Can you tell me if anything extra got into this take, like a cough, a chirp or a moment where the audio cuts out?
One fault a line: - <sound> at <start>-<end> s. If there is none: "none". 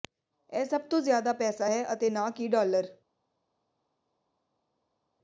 none